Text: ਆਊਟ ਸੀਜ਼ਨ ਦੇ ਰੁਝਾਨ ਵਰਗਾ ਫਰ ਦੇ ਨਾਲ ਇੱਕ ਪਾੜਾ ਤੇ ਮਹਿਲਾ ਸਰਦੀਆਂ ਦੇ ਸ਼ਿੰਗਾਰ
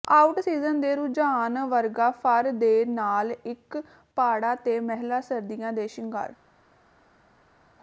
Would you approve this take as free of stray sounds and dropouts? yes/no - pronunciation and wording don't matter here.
yes